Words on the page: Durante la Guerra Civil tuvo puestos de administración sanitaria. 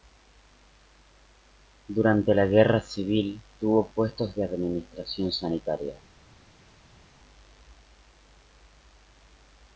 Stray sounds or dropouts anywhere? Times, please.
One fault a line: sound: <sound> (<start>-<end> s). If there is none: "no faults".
no faults